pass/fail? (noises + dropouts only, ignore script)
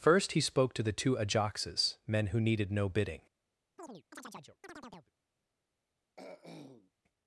fail